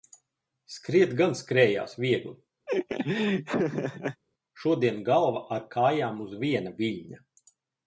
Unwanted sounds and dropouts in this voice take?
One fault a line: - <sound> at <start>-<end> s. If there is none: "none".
- laugh at 2.7-4.2 s